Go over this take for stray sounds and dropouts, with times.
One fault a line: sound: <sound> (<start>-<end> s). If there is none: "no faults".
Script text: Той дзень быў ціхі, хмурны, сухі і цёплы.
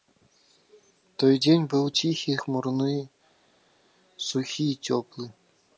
no faults